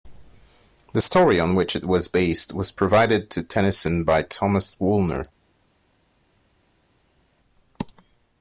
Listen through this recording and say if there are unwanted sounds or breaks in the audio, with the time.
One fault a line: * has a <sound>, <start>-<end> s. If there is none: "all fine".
all fine